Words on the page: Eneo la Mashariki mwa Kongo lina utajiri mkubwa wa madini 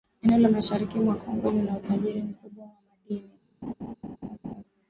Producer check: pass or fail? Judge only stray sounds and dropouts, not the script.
fail